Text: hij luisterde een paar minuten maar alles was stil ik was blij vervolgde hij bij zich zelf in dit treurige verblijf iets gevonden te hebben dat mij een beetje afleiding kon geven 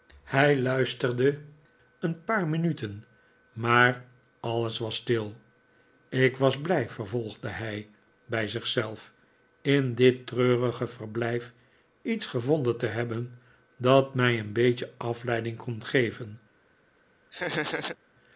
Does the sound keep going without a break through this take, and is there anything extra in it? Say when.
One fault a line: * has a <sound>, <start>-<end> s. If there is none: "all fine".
* has a laugh, 17.3-18.0 s